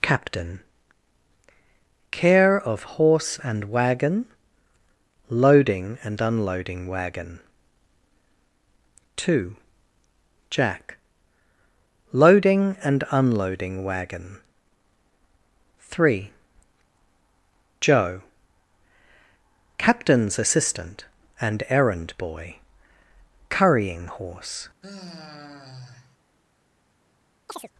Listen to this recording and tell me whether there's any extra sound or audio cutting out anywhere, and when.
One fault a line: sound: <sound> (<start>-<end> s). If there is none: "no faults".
sound: sigh (24.8-26.2 s)
sound: chirp (27.5-27.7 s)